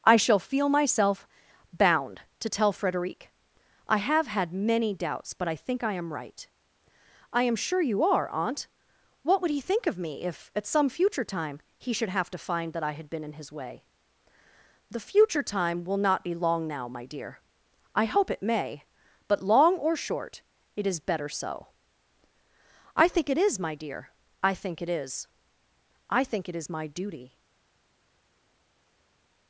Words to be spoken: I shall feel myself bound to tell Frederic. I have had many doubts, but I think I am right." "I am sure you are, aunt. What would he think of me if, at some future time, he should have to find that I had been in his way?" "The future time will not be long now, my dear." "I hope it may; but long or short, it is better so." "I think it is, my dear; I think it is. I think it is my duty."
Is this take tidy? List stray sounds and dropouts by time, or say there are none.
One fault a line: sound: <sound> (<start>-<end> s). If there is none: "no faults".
no faults